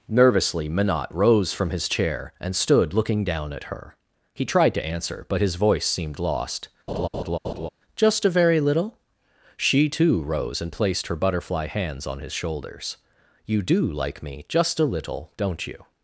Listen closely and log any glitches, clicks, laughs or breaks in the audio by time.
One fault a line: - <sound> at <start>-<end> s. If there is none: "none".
- laugh at 6.9-7.7 s